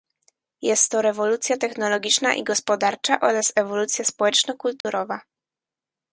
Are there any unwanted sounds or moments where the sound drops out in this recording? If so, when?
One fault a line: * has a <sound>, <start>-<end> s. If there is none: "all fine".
* has a dropout, 4.8-4.8 s